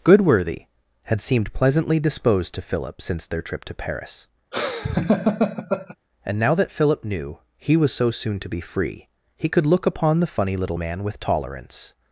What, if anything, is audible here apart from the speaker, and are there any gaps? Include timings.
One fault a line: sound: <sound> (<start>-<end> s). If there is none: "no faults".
sound: laugh (4.5-6.0 s)